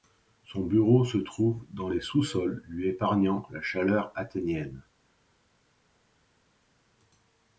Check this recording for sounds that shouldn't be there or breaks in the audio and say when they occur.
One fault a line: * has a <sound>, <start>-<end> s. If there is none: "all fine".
all fine